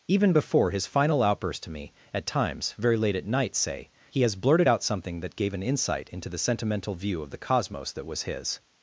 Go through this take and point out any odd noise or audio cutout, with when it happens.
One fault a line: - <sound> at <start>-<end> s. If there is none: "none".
none